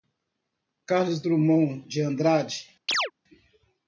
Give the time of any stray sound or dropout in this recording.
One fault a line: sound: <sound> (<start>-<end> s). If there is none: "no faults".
sound: chirp (2.9-3.1 s)